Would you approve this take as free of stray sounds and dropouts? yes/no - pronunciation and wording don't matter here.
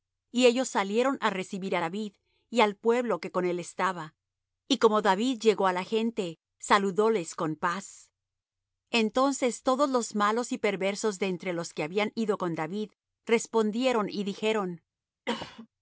no